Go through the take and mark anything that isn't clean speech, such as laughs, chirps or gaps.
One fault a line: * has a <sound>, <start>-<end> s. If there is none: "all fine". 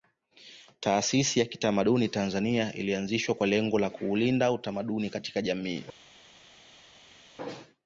all fine